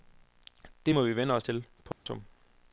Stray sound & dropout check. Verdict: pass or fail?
fail